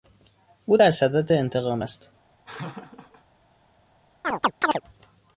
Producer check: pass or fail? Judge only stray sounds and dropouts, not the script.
fail